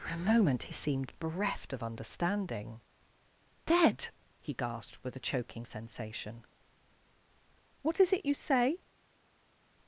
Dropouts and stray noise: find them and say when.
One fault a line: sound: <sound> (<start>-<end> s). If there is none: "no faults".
no faults